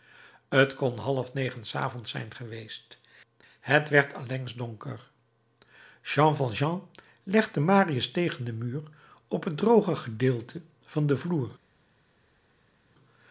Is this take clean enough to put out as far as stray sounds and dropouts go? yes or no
yes